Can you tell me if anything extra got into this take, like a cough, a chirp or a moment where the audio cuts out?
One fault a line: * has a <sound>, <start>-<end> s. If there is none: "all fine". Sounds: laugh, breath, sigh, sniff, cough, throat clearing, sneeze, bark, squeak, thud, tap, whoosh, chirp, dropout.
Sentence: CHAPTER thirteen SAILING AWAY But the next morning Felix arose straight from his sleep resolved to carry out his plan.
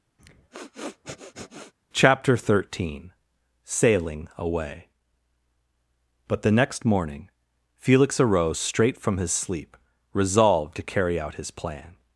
* has a sniff, 0.2-1.7 s